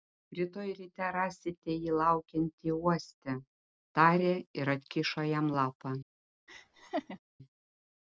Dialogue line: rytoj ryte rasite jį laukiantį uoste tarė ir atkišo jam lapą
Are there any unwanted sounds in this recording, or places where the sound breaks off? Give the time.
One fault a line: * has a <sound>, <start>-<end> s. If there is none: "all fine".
* has a laugh, 6.5-7.2 s